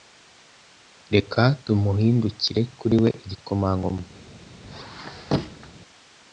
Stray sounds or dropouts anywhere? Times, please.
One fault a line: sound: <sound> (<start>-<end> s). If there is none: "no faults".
sound: squeak (4.6-5.7 s)